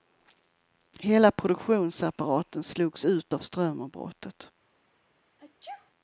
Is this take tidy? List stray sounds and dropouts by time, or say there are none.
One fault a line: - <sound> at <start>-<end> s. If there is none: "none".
- sneeze at 5.4-5.9 s